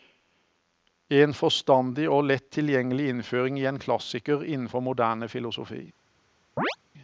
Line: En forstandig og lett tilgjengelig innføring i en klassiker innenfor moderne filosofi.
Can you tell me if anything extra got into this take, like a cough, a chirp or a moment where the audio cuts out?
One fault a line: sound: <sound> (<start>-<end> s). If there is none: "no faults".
sound: chirp (6.6-6.8 s)